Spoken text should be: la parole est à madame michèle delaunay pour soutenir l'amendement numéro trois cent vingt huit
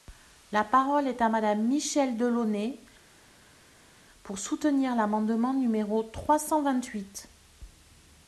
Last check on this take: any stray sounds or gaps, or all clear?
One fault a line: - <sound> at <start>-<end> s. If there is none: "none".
none